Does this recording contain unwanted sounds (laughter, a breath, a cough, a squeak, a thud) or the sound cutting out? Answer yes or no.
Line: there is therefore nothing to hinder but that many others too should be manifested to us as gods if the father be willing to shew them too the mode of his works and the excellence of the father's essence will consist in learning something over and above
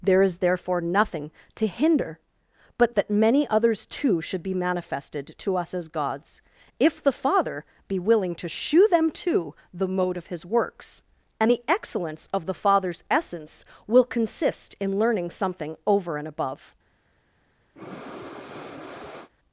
yes